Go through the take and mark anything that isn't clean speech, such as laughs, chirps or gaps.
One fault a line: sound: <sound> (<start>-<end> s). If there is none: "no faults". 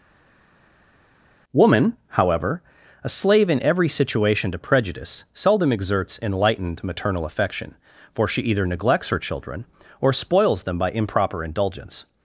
no faults